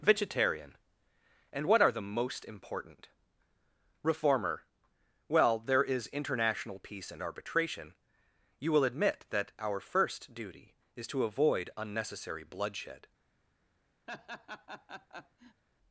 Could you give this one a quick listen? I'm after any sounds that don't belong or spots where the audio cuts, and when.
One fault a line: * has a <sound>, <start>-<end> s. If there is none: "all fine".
* has a laugh, 14.1-15.6 s